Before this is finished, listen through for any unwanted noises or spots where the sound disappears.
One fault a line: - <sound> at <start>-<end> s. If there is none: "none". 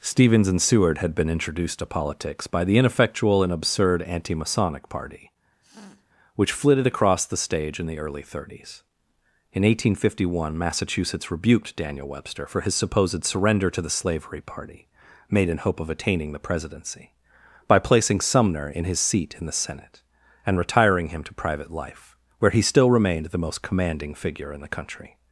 - sniff at 5.6-6.1 s